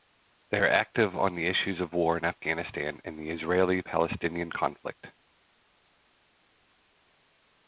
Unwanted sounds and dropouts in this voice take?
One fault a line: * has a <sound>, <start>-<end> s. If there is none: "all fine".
all fine